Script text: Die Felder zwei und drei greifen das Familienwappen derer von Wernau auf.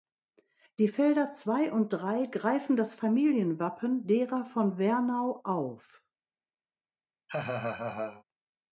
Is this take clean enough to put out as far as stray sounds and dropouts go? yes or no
no